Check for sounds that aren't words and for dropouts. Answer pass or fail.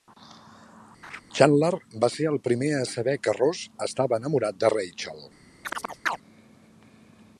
fail